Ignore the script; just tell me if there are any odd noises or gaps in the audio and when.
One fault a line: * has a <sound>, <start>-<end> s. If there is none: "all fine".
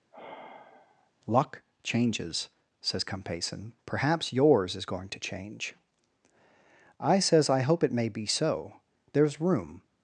* has a sigh, 0.1-1.1 s